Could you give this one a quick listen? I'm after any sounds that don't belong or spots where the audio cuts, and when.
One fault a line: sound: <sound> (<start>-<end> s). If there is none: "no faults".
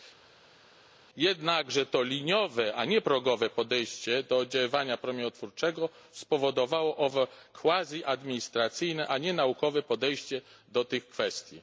no faults